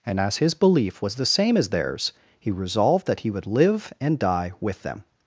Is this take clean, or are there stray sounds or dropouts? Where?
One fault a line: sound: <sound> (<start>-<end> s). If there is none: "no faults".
no faults